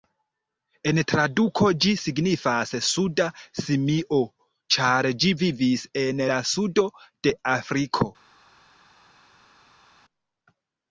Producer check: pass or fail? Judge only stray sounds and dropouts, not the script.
pass